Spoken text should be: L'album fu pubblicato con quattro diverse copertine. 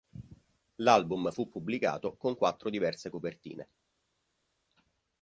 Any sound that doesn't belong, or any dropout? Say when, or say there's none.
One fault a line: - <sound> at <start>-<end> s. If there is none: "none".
none